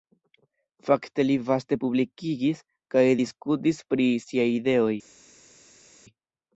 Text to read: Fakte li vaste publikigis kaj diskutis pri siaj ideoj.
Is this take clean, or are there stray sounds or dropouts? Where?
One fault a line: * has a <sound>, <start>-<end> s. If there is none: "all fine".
all fine